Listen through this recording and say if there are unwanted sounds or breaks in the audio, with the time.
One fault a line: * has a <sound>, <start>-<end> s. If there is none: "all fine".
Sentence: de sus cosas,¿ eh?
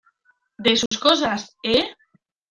* has a dropout, 0.9-0.9 s